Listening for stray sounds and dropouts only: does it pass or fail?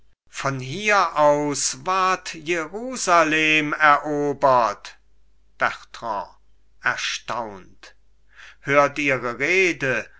pass